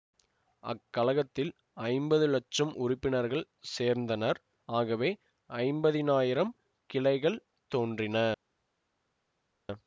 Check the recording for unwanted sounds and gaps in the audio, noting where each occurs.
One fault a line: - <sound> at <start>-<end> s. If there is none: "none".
none